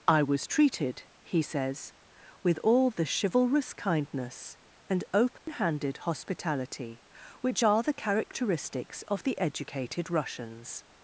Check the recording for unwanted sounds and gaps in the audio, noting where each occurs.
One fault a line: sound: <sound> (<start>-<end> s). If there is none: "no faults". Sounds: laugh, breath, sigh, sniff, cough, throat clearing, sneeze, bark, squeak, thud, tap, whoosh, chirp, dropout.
sound: dropout (5.4-5.5 s)